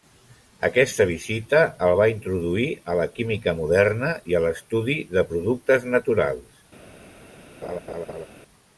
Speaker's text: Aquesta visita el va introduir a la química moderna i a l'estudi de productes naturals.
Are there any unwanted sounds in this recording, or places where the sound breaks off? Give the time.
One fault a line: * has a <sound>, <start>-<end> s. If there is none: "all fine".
* has a laugh, 7.6-8.3 s